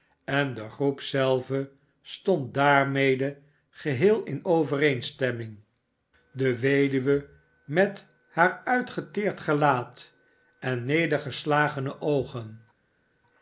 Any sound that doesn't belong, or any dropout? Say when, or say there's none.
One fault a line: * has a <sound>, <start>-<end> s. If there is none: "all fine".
all fine